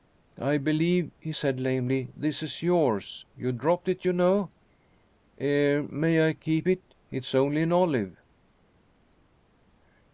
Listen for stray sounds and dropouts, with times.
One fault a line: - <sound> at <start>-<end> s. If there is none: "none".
none